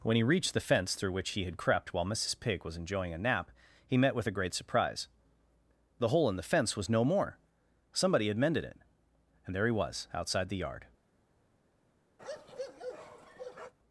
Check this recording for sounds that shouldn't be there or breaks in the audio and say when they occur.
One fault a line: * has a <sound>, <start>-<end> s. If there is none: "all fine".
* has a bark, 12.2-13.7 s